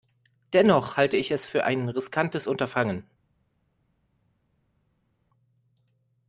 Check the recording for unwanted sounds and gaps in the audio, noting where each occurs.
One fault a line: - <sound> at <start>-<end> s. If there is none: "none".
none